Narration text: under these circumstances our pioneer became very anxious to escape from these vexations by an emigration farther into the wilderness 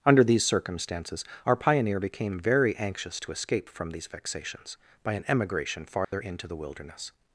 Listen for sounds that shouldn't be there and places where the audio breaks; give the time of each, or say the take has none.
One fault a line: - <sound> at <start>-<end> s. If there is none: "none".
- dropout at 6.0-6.1 s